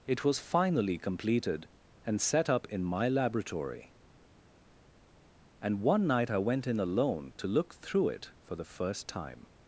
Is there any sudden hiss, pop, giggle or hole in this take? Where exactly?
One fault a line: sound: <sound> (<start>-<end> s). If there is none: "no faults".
no faults